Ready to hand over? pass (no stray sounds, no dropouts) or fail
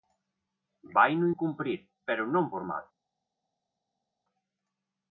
pass